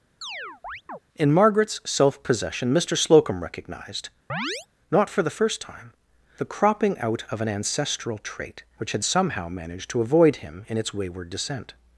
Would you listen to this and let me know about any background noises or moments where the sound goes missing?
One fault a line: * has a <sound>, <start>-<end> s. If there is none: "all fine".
* has a chirp, 0.2-1.0 s
* has a chirp, 4.3-4.7 s